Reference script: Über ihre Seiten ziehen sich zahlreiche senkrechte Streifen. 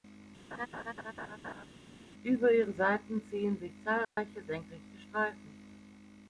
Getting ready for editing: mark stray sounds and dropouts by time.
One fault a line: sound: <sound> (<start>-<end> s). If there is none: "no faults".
sound: laugh (0.5-1.6 s)
sound: dropout (4.0-4.2 s)